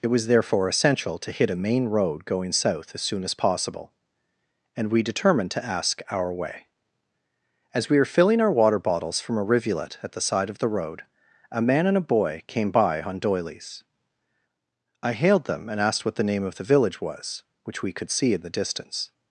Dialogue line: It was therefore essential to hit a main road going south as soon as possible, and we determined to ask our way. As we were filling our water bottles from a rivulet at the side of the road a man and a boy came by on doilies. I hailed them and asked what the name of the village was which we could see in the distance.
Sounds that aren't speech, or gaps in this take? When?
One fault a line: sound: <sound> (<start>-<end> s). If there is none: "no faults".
no faults